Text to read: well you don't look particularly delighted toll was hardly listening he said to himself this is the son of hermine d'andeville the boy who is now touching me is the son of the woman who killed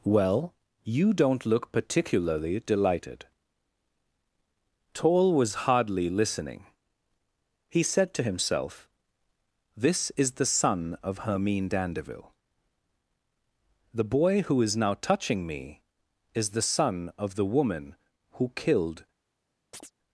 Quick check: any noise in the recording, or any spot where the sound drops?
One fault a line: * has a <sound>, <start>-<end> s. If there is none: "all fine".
* has a chirp, 19.7-19.9 s